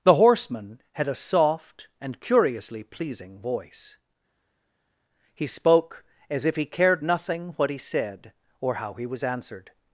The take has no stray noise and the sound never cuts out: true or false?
true